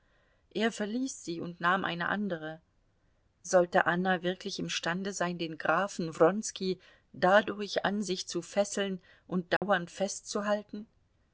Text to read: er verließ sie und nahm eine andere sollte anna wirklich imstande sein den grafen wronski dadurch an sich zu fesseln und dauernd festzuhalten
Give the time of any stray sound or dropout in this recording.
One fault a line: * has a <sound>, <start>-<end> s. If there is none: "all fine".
* has a dropout, 9.6-9.6 s